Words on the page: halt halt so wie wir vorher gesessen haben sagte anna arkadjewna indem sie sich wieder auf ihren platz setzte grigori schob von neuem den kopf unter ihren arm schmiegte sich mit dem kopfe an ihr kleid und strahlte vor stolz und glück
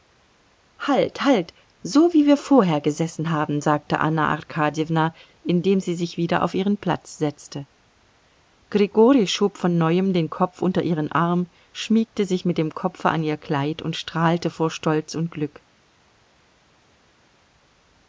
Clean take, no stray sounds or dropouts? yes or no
yes